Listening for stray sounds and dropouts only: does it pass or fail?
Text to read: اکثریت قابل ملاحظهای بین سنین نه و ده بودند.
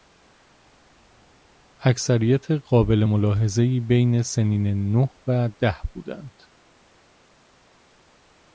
pass